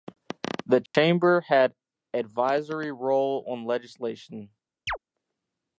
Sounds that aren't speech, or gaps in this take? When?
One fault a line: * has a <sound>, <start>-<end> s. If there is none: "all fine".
* has a dropout, 0.9-0.9 s
* has a chirp, 4.9-5.0 s